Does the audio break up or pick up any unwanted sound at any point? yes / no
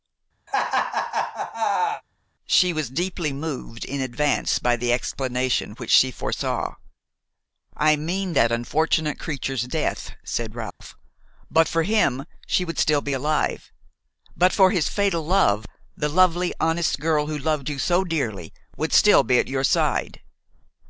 yes